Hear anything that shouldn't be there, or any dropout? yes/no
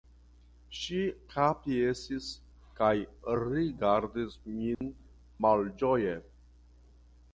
yes